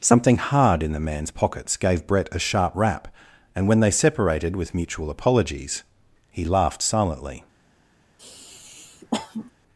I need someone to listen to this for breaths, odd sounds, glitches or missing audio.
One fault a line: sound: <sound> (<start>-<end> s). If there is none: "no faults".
sound: sniff (8.2-9.5 s)